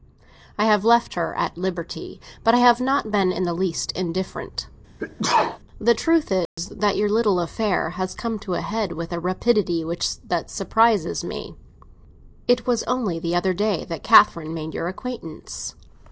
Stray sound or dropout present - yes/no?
yes